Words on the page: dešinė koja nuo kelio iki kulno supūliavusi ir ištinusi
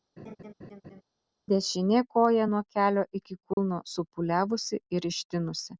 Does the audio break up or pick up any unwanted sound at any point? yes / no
yes